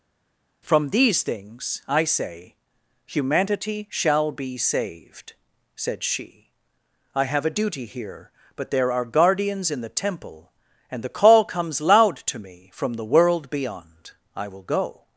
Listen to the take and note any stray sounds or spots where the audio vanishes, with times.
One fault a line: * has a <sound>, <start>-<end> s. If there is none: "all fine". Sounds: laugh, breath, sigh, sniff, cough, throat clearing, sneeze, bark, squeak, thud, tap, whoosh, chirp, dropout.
all fine